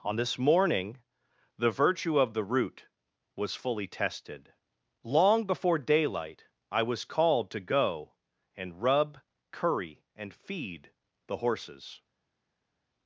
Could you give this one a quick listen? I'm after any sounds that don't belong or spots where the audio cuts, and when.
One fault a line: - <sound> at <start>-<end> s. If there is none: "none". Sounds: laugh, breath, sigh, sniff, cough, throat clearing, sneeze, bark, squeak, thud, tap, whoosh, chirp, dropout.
none